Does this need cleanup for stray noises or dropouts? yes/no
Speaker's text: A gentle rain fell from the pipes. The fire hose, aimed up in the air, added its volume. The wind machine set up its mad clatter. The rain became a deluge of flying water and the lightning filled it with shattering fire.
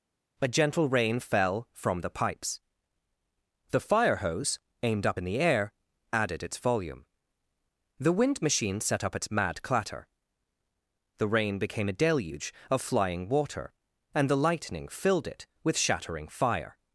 no